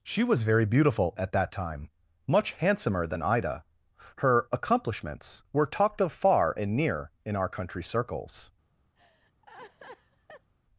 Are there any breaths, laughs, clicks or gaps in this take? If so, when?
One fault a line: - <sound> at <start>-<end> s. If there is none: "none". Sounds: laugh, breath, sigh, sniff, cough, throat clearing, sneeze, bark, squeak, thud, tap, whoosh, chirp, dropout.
- laugh at 9.0-10.5 s